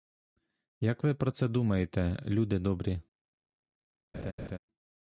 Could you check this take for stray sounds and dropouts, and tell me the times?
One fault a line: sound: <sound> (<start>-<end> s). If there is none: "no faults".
sound: laugh (4.1-4.6 s)